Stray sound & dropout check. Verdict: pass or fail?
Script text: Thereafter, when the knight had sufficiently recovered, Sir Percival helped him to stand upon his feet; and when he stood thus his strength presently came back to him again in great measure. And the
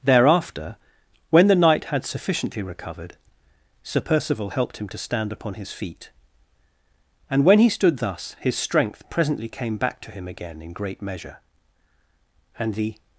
pass